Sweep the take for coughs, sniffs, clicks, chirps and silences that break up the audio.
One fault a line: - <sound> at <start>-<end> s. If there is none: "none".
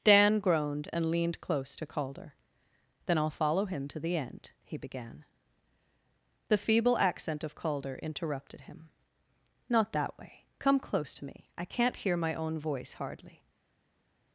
none